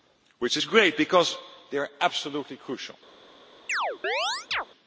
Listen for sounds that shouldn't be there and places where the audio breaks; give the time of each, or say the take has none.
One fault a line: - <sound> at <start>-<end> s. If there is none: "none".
- chirp at 3.7-4.7 s